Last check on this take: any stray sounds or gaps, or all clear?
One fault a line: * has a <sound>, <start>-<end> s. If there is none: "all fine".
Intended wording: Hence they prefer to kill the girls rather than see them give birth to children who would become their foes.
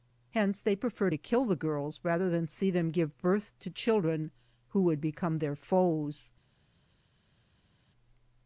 all fine